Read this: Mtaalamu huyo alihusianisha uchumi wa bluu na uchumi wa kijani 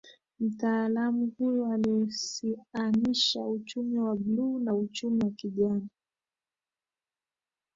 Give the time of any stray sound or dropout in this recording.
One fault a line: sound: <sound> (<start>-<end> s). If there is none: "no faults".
no faults